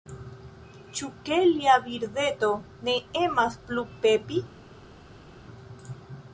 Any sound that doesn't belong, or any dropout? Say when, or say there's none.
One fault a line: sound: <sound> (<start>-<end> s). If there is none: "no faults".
no faults